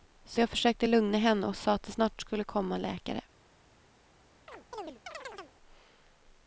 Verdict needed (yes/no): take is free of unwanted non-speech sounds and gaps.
no